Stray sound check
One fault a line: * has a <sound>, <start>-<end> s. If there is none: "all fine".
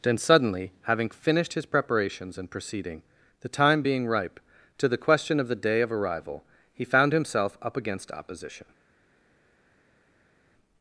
all fine